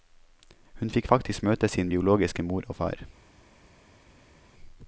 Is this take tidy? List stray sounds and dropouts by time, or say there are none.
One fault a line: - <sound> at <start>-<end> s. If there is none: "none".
none